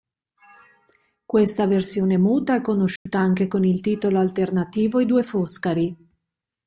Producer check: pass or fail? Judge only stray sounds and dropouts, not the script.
fail